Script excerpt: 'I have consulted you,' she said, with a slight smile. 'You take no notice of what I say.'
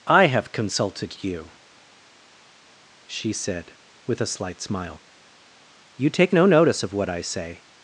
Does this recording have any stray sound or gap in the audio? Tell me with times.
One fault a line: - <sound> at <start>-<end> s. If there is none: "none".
none